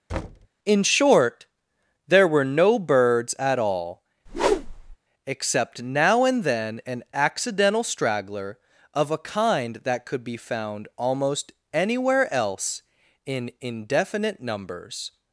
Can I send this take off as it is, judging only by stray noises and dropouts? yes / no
no